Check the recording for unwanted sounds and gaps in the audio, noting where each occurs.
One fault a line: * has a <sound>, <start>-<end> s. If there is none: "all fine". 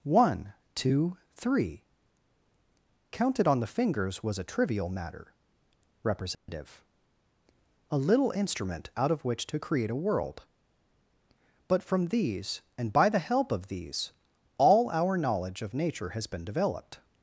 * has a dropout, 6.3-6.5 s